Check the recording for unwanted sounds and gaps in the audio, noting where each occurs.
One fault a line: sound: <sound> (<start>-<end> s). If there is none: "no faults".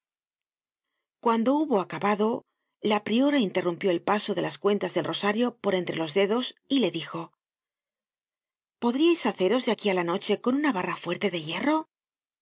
no faults